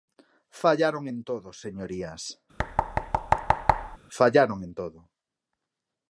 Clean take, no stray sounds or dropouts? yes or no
no